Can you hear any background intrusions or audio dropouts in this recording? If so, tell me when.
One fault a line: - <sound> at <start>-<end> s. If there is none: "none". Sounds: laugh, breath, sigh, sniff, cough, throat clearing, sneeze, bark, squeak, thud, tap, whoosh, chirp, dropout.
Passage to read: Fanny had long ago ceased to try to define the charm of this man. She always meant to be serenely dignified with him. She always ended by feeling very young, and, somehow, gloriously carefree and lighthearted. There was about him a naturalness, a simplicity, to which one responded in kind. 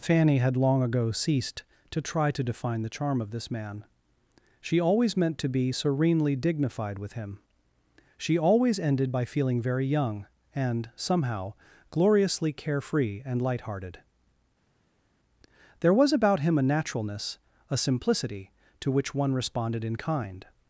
none